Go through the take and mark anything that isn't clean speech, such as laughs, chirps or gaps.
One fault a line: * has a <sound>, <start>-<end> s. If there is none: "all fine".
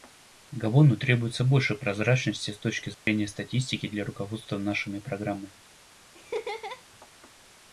* has a dropout, 2.9-3.1 s
* has a laugh, 6.1-6.8 s